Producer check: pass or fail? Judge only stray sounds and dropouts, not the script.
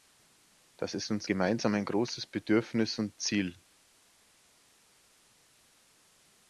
pass